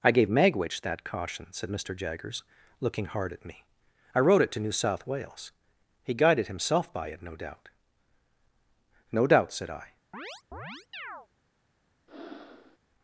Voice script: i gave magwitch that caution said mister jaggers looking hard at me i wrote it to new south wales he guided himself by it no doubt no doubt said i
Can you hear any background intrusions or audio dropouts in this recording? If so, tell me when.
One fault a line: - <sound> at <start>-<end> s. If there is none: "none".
- chirp at 10.1-11.3 s
- breath at 12.1-12.8 s